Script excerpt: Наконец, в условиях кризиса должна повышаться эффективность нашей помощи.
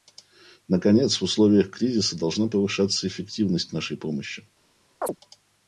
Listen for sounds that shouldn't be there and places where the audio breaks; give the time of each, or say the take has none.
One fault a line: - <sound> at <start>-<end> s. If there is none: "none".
- chirp at 5.0-5.2 s